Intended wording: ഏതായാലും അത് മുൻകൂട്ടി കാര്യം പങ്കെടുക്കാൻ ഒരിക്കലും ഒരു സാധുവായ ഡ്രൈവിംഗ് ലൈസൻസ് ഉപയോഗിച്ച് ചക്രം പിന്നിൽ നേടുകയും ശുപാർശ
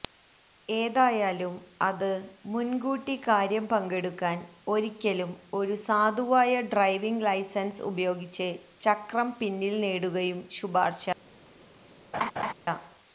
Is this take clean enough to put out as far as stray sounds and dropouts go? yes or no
no